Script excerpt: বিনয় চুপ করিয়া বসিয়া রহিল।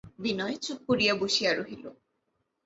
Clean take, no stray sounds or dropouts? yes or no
yes